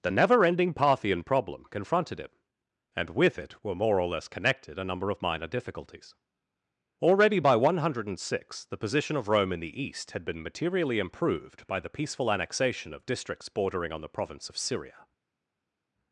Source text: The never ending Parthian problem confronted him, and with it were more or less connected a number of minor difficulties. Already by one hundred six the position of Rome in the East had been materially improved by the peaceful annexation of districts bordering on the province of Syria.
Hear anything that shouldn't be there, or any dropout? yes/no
no